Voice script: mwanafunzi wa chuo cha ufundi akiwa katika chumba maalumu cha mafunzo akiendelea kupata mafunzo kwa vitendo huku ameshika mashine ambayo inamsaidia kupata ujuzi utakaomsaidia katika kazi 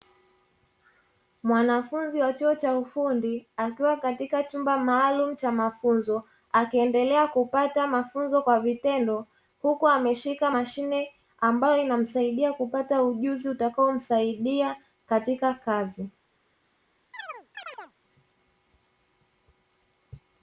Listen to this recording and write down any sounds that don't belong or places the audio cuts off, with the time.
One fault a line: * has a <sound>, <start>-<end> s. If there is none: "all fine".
* has a chirp, 17.1-17.9 s